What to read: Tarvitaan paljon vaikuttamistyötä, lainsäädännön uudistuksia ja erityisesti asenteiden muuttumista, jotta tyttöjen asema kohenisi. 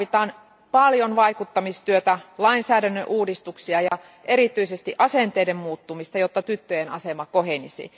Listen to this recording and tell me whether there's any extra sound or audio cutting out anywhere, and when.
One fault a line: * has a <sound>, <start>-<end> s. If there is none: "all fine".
* has a dropout, 3.9-3.9 s